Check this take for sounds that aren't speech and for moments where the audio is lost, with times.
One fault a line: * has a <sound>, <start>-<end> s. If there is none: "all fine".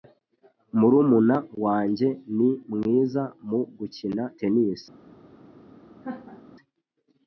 * has a laugh, 6.0-6.4 s